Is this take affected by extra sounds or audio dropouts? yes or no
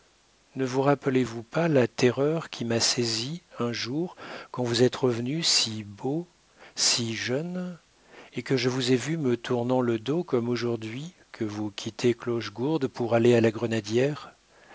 no